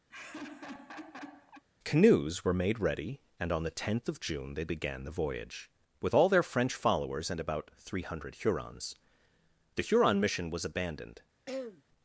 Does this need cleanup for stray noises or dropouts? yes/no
yes